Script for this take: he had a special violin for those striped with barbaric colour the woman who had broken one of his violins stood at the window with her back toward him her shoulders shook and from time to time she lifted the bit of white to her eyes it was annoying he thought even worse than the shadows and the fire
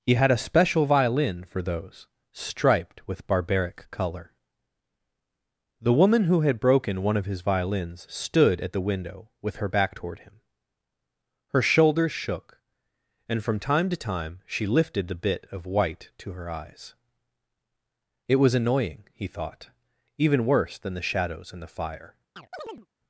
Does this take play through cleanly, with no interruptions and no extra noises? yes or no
no